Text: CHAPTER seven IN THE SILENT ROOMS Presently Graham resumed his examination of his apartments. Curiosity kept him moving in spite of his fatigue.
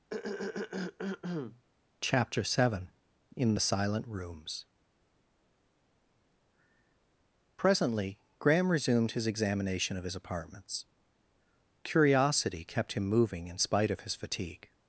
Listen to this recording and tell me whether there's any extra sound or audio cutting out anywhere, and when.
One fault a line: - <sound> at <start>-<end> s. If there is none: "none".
- throat clearing at 0.1-1.6 s